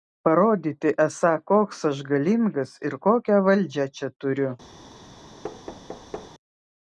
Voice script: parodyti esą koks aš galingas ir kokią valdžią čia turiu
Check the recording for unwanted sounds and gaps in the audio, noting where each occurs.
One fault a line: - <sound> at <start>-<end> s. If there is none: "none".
- thud at 5.4-6.3 s